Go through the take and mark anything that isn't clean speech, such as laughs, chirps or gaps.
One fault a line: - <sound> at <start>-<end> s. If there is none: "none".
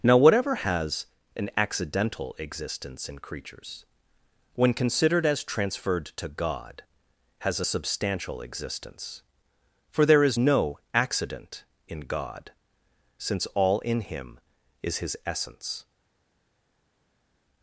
none